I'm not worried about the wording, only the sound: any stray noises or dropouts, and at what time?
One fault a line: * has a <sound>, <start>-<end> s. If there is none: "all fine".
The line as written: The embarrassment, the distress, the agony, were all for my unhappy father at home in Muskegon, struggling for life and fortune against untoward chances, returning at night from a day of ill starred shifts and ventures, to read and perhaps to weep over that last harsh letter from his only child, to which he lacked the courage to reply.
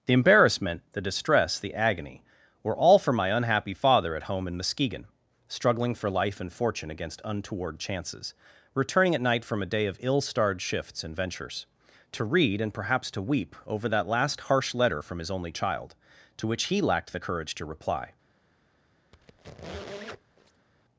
* has a squeak, 19.1-20.7 s